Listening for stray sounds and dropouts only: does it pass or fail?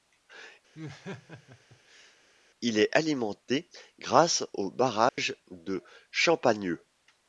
fail